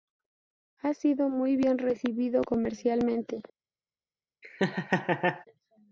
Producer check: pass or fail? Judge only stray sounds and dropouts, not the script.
fail